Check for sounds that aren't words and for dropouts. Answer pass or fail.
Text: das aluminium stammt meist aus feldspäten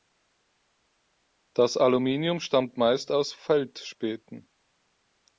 pass